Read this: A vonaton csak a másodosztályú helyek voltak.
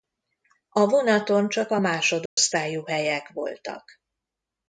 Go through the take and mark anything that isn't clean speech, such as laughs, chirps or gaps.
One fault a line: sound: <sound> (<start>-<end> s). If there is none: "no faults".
sound: dropout (2.3-2.4 s)